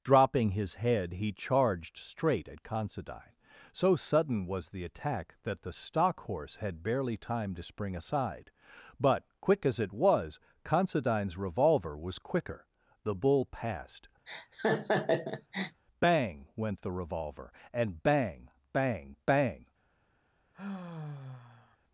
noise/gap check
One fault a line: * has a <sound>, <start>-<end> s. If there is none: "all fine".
* has a laugh, 14.3-15.8 s
* has a sigh, 20.5-21.8 s